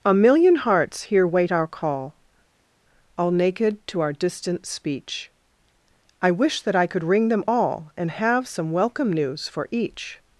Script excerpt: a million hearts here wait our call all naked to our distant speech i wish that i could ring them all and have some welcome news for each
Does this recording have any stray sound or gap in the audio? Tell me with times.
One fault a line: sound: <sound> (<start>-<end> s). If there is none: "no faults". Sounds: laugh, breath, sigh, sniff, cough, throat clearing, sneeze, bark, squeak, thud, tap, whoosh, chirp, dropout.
no faults